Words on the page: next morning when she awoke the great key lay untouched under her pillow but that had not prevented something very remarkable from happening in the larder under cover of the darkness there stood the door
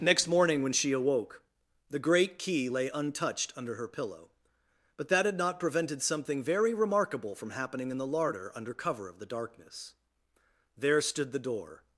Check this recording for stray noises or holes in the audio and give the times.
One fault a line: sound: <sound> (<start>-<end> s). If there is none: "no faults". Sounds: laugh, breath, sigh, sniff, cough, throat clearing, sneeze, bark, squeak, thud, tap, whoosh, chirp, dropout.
no faults